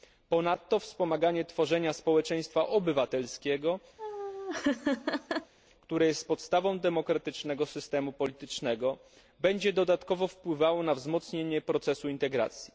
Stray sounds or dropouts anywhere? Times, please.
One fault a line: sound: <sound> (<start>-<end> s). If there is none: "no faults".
sound: laugh (4.0-5.5 s)